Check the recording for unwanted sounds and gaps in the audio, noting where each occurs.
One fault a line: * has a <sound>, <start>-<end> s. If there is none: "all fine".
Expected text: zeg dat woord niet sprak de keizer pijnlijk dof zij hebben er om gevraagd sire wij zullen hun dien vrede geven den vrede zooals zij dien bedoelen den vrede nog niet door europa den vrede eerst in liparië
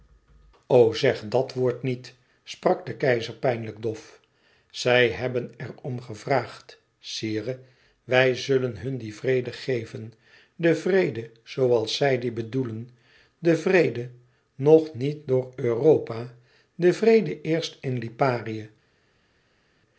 all fine